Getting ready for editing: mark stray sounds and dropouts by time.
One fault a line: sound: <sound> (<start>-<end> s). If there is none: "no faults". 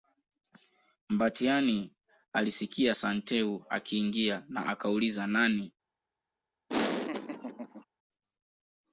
sound: laugh (6.7-7.8 s)